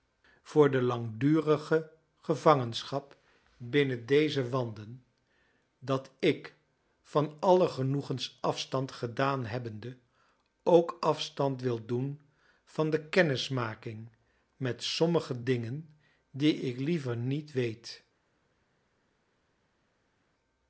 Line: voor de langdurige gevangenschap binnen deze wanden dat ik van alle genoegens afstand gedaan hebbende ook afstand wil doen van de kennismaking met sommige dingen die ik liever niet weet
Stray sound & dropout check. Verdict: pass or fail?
pass